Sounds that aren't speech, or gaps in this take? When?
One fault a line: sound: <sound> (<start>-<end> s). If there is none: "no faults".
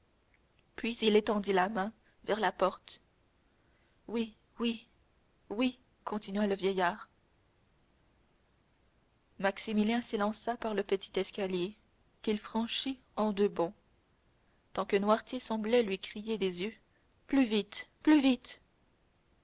no faults